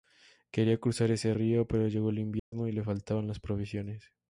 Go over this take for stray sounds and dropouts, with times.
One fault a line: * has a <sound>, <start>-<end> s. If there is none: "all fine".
* has a dropout, 2.4-2.5 s